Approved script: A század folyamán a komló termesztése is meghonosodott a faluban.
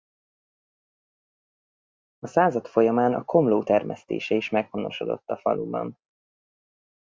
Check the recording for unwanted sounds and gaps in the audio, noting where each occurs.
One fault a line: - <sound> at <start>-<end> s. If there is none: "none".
none